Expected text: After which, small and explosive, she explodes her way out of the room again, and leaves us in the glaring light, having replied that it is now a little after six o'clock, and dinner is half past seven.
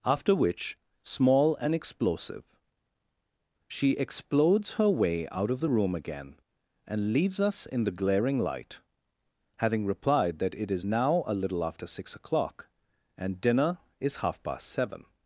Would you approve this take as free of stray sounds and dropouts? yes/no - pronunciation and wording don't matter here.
yes